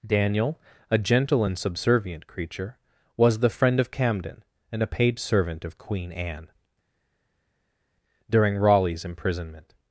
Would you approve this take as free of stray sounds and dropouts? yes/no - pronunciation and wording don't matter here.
yes